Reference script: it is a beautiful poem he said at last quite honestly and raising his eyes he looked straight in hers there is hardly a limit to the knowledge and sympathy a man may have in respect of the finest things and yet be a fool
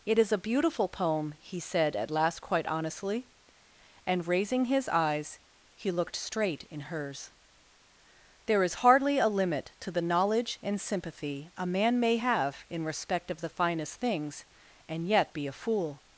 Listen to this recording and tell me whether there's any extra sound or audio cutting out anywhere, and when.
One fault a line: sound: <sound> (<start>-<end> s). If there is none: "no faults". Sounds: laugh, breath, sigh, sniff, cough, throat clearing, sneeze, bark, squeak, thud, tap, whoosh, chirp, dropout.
no faults